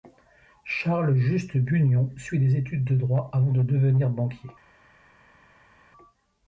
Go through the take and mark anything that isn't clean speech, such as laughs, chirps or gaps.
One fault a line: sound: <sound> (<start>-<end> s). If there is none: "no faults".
no faults